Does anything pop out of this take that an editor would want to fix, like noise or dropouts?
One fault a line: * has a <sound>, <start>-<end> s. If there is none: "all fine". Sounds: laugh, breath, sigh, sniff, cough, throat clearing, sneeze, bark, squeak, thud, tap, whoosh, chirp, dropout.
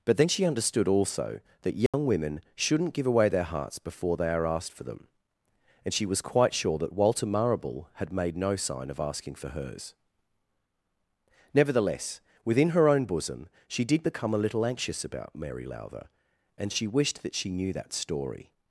* has a dropout, 1.9-1.9 s